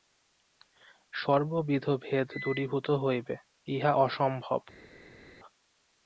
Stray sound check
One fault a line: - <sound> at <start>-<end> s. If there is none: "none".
none